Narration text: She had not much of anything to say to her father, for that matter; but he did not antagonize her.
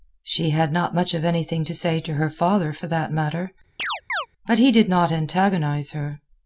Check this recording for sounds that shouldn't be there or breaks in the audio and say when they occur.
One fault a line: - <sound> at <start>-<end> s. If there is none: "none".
- chirp at 3.8-4.3 s